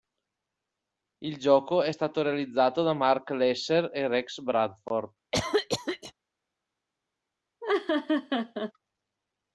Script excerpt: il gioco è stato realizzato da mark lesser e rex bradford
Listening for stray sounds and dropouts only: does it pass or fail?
fail